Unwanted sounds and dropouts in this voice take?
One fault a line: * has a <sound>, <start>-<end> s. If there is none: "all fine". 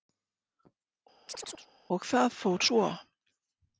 * has a chirp, 1.3-1.7 s